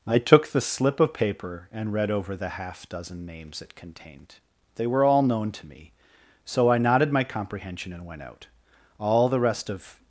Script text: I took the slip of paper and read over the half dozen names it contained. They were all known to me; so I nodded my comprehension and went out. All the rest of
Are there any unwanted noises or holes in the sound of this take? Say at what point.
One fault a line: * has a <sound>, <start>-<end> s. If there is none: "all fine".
all fine